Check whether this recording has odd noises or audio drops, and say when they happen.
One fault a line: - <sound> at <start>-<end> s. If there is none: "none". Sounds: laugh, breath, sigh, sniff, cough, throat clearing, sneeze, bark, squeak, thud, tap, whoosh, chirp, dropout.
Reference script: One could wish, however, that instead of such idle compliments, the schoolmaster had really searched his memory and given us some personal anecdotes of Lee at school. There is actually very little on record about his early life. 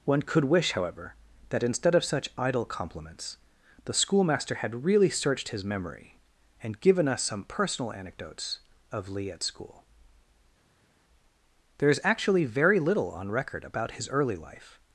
none